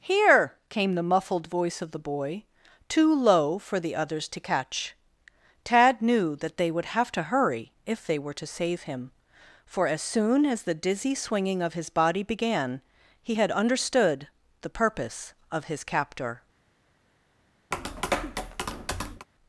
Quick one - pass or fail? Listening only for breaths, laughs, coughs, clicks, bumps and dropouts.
fail